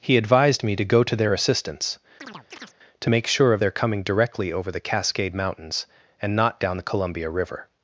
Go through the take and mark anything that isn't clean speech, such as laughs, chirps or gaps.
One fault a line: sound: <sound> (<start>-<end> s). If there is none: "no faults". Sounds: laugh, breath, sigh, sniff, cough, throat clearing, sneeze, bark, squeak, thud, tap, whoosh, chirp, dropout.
sound: chirp (2.2-2.8 s)